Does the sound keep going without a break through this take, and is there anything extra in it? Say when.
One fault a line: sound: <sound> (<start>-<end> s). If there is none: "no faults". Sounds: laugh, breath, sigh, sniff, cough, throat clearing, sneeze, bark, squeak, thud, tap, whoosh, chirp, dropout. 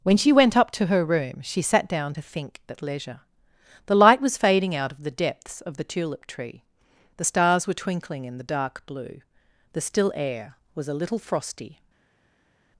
no faults